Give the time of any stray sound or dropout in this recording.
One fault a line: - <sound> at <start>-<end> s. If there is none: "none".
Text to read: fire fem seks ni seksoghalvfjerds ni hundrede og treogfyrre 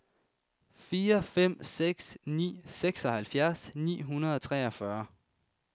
none